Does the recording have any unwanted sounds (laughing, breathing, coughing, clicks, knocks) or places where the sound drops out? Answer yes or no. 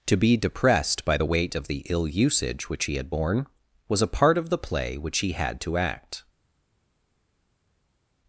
no